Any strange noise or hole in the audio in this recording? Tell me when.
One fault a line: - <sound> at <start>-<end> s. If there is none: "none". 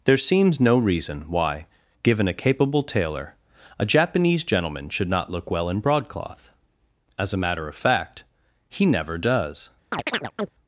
- chirp at 9.9-10.5 s